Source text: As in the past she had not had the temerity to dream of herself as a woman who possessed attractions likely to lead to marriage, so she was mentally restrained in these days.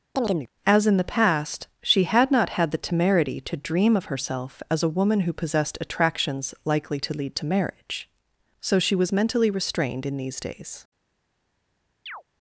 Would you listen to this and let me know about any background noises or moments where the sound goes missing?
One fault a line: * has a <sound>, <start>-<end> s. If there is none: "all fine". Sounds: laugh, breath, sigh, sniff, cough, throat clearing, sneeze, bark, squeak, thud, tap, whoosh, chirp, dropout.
* has a chirp, 0.2-0.5 s
* has a chirp, 12.1-12.2 s